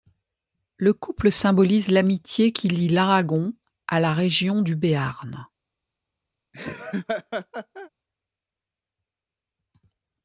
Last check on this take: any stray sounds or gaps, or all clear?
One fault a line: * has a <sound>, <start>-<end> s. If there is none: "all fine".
* has a laugh, 6.5-7.9 s